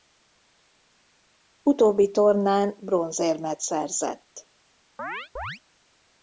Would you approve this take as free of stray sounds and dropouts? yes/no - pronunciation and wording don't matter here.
no